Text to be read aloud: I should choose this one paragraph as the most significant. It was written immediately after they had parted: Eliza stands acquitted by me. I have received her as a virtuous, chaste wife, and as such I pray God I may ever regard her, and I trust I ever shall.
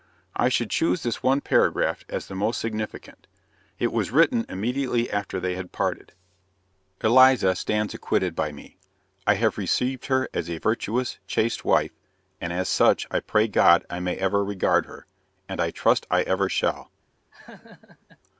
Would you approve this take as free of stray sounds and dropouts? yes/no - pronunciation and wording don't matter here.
no